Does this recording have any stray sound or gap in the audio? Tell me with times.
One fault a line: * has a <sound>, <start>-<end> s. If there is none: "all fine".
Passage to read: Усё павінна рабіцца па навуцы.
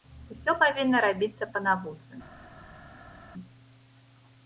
all fine